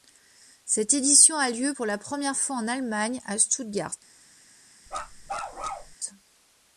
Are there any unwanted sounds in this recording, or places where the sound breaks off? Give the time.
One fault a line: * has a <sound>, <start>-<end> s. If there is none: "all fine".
* has a bark, 4.9-6.0 s